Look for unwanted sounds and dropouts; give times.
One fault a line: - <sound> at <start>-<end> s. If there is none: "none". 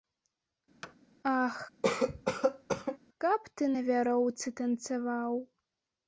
- thud at 0.8-1.0 s
- cough at 1.8-3.0 s